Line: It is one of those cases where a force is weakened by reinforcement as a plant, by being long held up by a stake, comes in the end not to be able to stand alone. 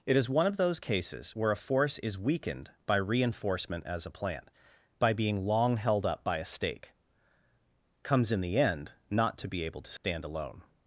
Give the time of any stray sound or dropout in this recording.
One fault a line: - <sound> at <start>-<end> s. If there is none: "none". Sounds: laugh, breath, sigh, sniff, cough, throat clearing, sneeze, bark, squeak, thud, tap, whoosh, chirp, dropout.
- dropout at 10.0-10.0 s